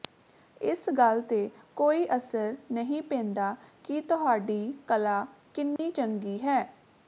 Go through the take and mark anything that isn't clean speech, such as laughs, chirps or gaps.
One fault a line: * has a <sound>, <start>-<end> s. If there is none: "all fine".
* has a dropout, 5.8-5.8 s